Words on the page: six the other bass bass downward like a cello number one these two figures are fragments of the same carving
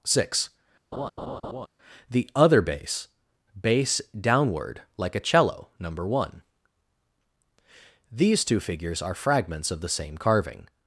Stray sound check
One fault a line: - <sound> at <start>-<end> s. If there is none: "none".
- laugh at 0.9-1.7 s